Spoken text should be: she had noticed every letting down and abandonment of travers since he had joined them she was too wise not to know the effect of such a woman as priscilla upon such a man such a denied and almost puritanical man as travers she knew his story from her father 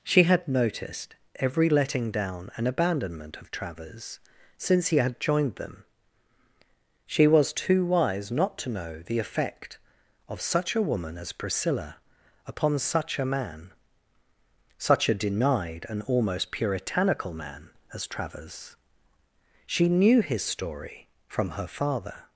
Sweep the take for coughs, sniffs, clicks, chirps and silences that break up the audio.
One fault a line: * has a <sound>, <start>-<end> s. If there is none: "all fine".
all fine